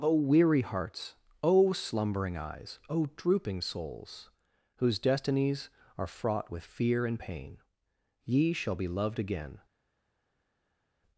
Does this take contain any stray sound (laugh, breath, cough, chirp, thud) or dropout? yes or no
no